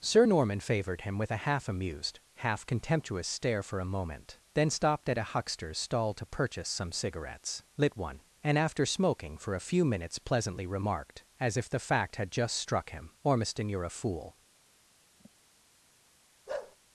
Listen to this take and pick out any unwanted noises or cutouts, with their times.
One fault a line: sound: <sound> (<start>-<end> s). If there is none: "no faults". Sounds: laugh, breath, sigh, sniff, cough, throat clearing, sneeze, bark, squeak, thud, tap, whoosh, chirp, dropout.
sound: sigh (15.2-15.3 s)
sound: bark (16.5-16.8 s)